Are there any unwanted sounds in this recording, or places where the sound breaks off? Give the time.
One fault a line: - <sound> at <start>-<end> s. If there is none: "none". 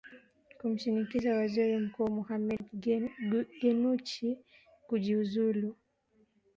- dropout at 2.6-2.6 s